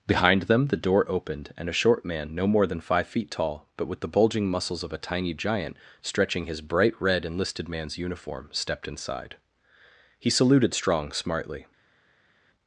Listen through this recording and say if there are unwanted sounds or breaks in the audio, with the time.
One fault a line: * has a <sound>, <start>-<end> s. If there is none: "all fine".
all fine